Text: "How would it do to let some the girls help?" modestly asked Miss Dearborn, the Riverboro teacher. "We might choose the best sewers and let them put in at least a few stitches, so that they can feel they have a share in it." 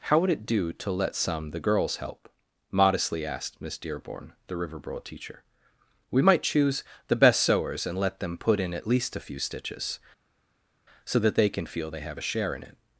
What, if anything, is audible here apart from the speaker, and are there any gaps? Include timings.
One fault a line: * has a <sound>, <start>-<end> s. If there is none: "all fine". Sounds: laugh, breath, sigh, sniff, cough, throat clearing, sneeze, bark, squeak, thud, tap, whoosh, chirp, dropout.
all fine